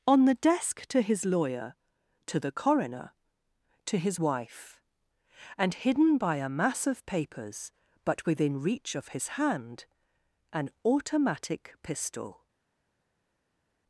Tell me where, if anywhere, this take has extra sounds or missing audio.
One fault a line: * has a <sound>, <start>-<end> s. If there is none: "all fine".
all fine